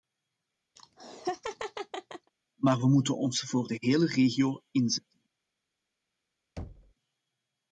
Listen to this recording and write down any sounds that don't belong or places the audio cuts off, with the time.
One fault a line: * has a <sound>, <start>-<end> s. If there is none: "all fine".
* has a laugh, 0.8-2.3 s
* has a thud, 6.6-6.9 s